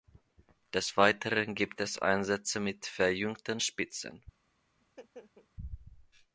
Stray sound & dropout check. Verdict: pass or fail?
fail